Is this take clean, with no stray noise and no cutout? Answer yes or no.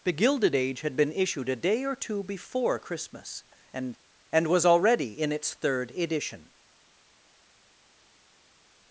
yes